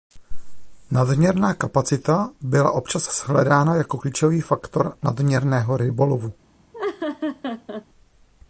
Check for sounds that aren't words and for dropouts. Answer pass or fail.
fail